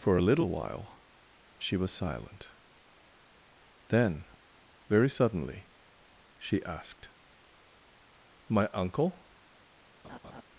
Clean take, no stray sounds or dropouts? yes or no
no